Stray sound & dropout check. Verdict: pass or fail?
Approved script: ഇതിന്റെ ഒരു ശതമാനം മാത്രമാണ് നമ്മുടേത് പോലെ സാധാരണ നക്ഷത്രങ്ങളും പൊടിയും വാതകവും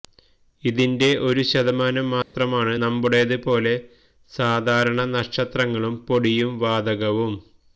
fail